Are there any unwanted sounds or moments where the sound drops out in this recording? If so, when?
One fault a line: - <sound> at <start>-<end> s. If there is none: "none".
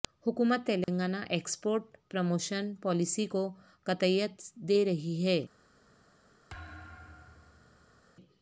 - dropout at 0.8-0.9 s
- thud at 6.5-8.0 s